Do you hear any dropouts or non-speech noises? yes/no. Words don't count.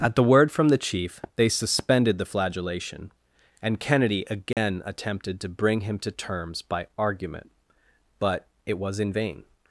yes